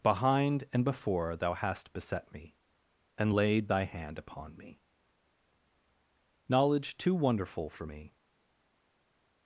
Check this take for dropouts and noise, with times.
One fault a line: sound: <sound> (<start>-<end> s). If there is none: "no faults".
no faults